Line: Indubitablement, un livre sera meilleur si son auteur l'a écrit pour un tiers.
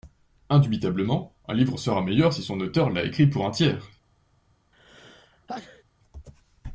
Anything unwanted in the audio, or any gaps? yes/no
yes